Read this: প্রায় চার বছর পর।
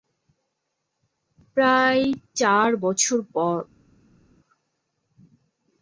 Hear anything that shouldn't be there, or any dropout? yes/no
no